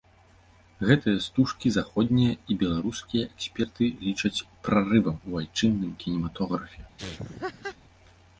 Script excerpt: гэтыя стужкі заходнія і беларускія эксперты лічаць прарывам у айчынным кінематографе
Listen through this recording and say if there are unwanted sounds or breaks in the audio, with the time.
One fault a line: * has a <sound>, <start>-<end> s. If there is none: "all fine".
* has a laugh, 7.0-7.8 s